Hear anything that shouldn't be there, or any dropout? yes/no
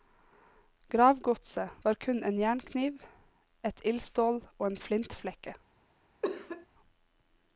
yes